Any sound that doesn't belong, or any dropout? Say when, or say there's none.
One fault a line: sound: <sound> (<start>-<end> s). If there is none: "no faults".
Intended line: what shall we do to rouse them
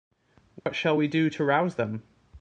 sound: dropout (0.6-0.7 s)